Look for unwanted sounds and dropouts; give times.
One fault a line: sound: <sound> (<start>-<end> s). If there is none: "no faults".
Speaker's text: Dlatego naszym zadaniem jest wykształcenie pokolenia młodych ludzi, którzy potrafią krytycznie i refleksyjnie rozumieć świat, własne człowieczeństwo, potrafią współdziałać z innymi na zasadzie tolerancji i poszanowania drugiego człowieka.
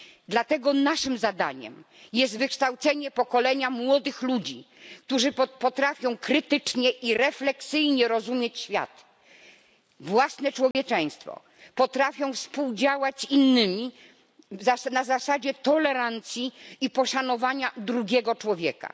sound: dropout (10.7-10.7 s)